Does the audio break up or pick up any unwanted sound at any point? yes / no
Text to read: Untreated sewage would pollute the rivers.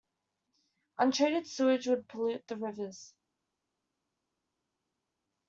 no